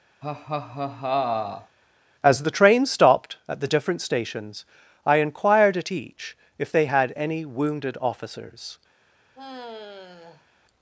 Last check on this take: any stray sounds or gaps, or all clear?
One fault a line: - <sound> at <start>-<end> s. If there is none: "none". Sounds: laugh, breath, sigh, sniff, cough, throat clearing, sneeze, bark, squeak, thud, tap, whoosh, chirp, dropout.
- laugh at 0.2-1.8 s
- sigh at 9.3-10.5 s